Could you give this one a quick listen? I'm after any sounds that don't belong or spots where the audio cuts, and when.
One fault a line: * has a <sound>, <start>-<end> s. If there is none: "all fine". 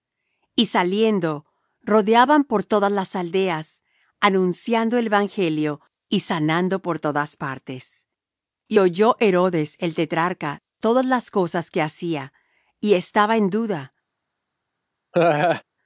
* has a laugh, 15.1-15.6 s